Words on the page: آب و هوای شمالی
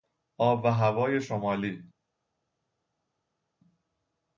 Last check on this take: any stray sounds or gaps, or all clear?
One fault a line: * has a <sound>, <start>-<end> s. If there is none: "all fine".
all fine